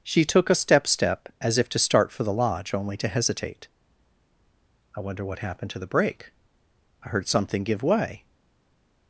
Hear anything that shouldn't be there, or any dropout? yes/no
no